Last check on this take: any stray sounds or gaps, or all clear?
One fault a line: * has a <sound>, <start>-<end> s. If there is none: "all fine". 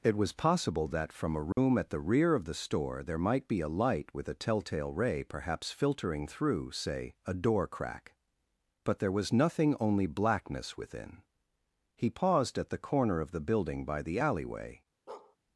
* has a dropout, 1.5-1.6 s
* has a bark, 15.1-15.4 s